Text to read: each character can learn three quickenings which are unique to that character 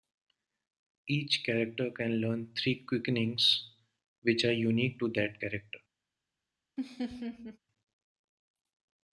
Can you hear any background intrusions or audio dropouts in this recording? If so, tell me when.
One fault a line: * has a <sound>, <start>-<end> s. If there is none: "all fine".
* has a laugh, 6.8-7.6 s